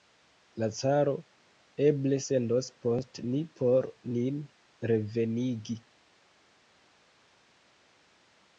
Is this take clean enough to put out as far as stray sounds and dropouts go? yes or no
yes